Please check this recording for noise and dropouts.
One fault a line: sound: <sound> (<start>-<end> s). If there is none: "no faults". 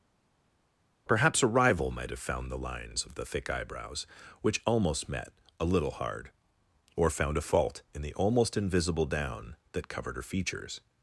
no faults